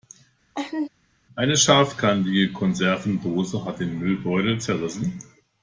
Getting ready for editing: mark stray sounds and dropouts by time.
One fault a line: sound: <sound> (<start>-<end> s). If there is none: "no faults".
sound: laugh (0.5-0.9 s)